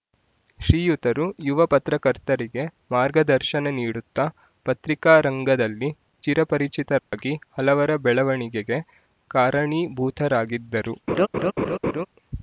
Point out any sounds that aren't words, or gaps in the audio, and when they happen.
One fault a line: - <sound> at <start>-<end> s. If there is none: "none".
- dropout at 7.0-7.1 s
- laugh at 11.1-12.1 s